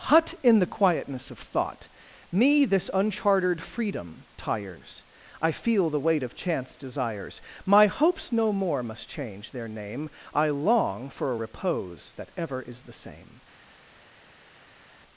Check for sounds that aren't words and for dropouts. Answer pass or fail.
pass